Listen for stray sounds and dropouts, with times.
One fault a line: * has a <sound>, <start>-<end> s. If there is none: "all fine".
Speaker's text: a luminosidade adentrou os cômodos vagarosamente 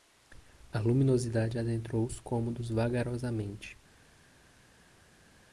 all fine